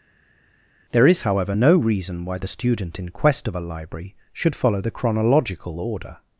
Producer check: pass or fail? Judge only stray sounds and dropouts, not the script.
pass